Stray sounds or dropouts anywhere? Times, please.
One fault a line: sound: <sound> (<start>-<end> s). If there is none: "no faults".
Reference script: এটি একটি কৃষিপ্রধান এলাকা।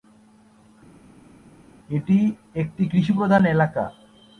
no faults